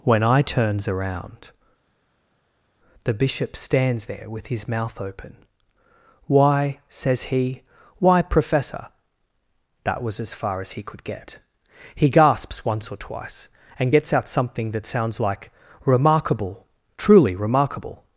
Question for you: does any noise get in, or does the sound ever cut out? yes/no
no